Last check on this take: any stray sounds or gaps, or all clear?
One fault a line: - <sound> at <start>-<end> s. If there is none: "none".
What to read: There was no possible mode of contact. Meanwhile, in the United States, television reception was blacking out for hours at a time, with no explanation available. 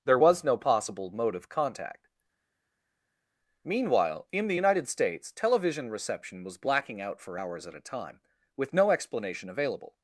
none